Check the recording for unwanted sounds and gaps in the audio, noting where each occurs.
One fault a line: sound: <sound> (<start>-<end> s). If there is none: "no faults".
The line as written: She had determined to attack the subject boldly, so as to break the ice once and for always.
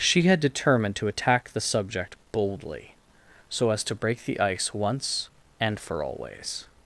no faults